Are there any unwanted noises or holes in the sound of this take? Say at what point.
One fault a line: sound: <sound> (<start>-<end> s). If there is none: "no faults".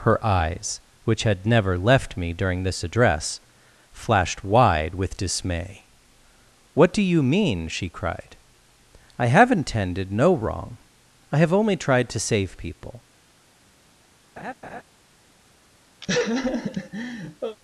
sound: laugh (14.4-14.8 s)
sound: laugh (16.0-17.6 s)